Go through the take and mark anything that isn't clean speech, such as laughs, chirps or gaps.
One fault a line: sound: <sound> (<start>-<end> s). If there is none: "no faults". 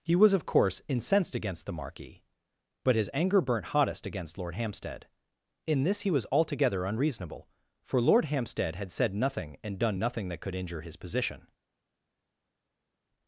no faults